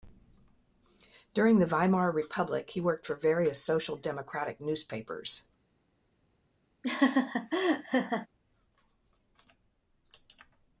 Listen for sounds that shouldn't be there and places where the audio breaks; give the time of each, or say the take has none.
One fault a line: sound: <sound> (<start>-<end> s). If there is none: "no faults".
sound: laugh (6.8-8.3 s)